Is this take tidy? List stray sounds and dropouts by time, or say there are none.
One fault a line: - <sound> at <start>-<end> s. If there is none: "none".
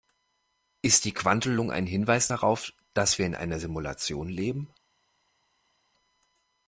none